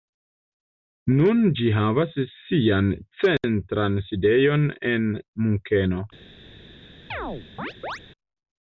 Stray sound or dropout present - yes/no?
yes